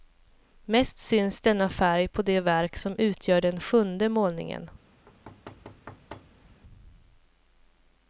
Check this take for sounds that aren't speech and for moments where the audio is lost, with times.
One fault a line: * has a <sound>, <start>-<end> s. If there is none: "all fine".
* has a thud, 5.1-6.6 s